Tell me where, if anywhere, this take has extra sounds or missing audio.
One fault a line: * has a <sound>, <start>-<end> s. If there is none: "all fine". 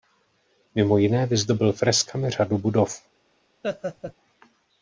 * has a laugh, 3.6-4.1 s